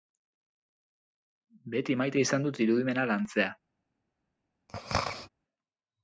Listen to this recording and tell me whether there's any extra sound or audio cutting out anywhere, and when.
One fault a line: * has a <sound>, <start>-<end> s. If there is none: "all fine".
* has a throat clearing, 4.7-5.3 s